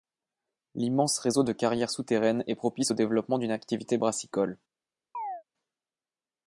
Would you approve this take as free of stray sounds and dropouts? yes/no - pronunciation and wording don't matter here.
no